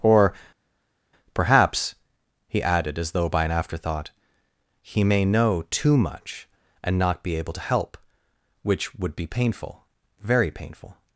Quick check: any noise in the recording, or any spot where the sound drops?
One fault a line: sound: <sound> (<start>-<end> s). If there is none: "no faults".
no faults